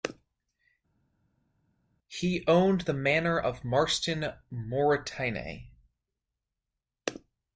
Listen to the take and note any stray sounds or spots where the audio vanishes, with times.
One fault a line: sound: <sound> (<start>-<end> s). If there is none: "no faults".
no faults